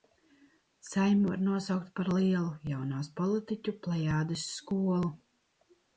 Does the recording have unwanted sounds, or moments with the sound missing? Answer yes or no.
no